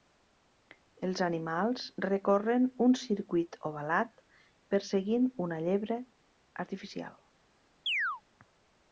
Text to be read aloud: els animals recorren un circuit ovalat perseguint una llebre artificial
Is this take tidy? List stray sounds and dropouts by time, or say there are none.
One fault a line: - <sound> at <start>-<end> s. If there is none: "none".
- chirp at 7.9-8.2 s